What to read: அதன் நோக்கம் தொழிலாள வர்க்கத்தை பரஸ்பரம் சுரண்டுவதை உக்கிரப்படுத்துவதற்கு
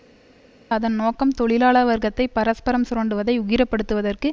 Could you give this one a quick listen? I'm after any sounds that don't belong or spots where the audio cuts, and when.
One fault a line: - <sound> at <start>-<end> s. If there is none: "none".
none